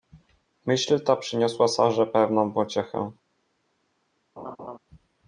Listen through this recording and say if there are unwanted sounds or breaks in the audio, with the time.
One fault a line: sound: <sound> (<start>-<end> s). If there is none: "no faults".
sound: laugh (4.4-4.8 s)